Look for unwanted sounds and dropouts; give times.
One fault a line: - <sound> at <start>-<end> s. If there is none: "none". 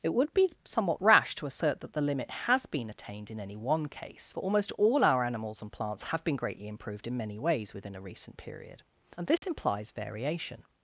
- dropout at 9.4-9.4 s